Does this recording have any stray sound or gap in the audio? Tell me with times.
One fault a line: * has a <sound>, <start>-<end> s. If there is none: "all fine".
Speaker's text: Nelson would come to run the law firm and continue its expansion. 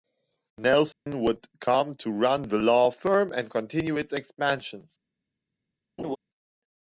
* has a dropout, 0.9-1.1 s
* has a laugh, 6.0-6.2 s